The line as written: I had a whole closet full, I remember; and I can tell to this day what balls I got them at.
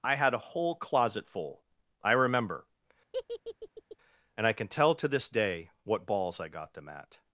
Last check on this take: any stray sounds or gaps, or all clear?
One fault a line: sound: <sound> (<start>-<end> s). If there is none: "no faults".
sound: laugh (3.1-4.0 s)